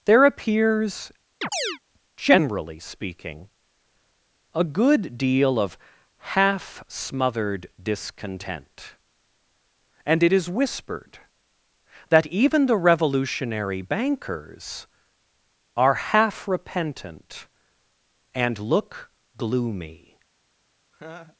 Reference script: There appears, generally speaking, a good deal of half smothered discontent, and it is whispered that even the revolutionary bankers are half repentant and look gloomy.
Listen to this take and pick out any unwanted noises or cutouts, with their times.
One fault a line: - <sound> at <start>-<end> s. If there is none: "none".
- chirp at 1.4-1.8 s
- laugh at 20.9-21.4 s